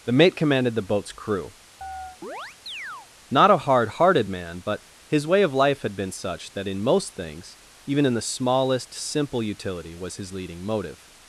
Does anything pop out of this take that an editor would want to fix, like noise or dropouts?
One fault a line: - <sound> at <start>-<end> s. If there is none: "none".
- chirp at 1.8-3.1 s